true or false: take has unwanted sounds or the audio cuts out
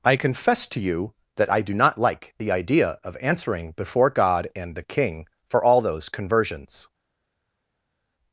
false